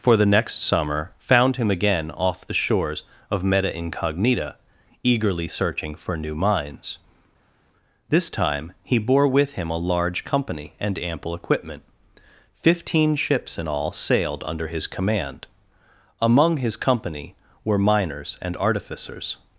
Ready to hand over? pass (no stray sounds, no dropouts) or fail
pass